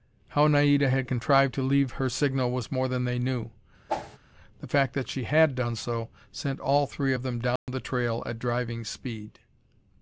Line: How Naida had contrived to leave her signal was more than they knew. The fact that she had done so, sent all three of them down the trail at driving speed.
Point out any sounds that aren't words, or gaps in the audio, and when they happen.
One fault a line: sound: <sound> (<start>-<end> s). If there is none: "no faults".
sound: whoosh (3.9-4.2 s)
sound: dropout (7.6-7.7 s)